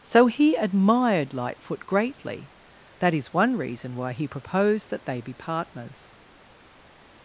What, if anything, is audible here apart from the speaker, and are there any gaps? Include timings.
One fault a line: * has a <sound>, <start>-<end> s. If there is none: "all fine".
all fine